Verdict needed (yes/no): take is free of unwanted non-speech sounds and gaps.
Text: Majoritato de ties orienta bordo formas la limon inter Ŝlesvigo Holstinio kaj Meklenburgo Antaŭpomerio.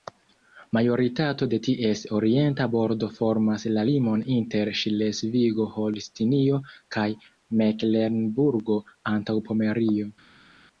yes